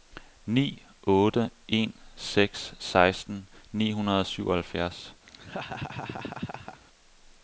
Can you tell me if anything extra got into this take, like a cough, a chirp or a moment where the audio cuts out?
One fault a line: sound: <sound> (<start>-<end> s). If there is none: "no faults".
sound: laugh (5.3-6.8 s)